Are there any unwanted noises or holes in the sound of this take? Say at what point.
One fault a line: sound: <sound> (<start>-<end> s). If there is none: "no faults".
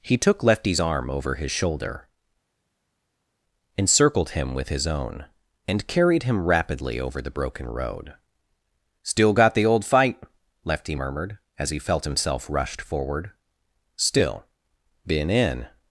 no faults